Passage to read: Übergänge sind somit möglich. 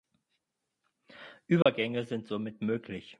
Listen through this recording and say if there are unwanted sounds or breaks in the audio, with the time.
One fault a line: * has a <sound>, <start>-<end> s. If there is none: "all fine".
* has a dropout, 1.6-1.7 s